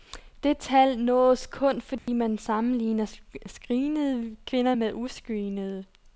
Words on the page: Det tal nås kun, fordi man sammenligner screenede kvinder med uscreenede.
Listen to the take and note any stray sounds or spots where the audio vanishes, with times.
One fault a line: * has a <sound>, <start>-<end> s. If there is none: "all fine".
* has a dropout, 2.0-2.1 s